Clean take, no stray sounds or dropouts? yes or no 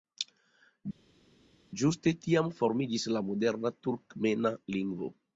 yes